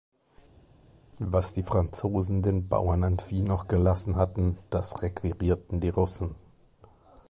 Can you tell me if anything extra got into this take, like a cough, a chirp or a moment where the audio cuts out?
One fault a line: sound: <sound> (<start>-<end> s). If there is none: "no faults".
no faults